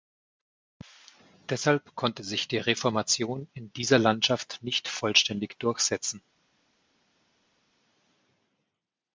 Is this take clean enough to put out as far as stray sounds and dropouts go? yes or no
yes